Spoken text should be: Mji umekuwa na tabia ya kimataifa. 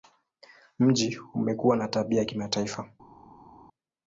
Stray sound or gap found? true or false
false